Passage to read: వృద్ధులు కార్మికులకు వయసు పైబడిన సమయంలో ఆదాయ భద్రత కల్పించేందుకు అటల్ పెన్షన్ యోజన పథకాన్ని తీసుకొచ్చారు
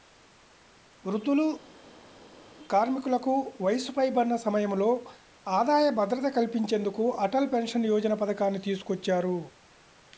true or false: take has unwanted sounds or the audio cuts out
false